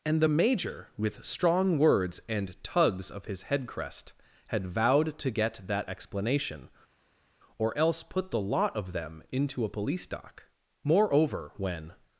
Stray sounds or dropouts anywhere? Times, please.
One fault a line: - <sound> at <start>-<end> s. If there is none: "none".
none